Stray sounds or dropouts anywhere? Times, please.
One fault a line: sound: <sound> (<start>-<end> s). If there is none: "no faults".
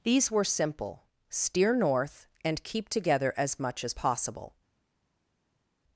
no faults